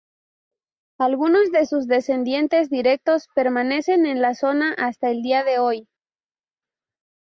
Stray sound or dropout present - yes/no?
no